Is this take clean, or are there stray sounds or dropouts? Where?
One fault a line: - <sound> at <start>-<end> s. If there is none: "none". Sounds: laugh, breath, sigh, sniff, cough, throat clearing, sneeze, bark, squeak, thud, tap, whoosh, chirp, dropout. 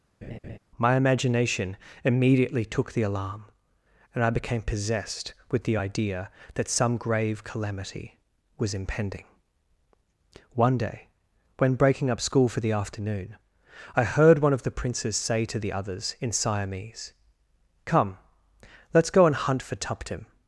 - laugh at 0.2-0.6 s